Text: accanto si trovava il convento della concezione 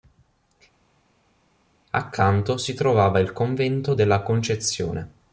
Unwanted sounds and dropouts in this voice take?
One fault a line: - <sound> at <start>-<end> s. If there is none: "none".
none